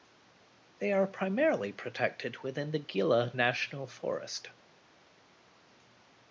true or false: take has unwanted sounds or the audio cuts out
false